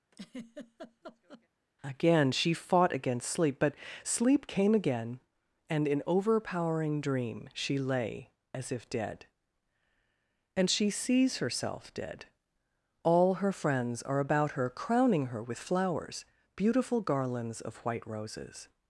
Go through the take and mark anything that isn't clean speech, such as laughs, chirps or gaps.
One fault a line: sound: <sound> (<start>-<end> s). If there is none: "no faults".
sound: laugh (0.1-1.5 s)